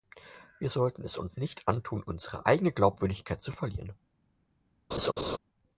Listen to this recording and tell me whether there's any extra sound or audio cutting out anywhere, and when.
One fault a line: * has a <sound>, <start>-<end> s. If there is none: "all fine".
* has a laugh, 4.9-5.4 s